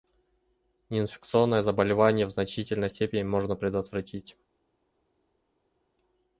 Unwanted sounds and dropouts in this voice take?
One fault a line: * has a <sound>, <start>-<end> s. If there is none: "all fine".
all fine